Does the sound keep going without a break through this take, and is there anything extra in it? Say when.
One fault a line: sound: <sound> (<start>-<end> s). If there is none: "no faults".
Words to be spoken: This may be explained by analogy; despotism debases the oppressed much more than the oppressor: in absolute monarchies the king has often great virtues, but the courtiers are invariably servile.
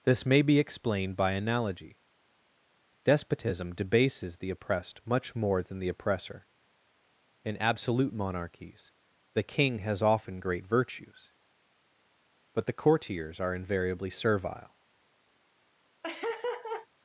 sound: laugh (16.0-16.9 s)